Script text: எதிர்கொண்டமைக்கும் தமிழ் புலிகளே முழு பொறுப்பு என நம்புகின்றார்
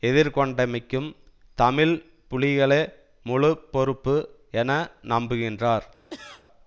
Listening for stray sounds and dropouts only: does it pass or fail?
fail